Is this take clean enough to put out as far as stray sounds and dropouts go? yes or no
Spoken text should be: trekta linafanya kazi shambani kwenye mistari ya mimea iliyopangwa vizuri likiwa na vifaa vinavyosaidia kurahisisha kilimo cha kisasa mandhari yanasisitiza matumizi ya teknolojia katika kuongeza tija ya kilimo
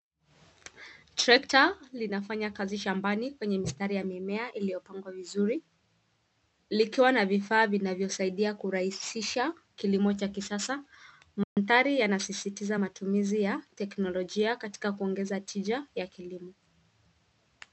no